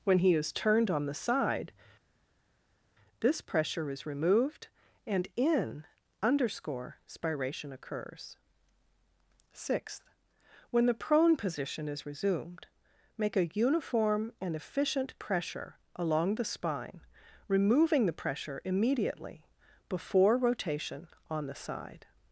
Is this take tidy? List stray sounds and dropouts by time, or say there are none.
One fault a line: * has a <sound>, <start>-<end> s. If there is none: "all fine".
all fine